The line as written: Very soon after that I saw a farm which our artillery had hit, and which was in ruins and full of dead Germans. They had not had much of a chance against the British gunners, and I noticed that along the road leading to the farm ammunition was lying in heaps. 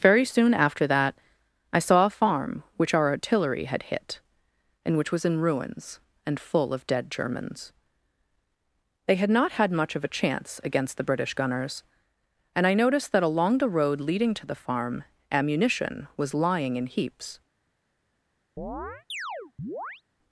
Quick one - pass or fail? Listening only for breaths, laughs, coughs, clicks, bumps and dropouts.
fail